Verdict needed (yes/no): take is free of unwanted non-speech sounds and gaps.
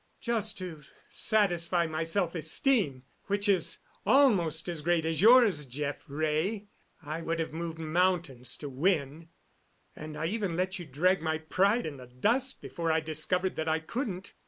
yes